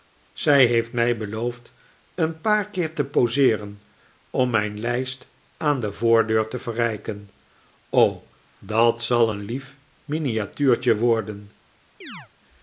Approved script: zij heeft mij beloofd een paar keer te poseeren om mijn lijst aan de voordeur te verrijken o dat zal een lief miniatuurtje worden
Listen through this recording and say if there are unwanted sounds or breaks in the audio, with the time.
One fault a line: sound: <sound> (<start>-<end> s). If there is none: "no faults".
sound: chirp (12.0-12.3 s)